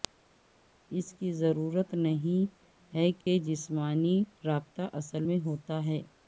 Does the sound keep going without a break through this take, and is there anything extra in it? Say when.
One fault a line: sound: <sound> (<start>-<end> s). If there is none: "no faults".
sound: dropout (3.2-3.3 s)